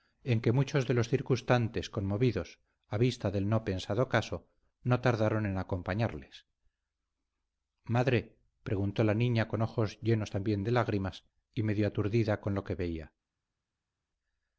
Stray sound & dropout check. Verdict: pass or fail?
pass